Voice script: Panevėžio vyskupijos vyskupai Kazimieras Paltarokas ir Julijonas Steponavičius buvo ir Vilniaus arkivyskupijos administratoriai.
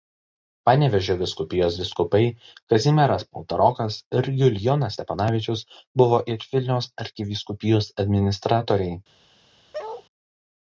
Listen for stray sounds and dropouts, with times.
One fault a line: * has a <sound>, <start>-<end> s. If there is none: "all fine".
* has a bark, 9.7-10.1 s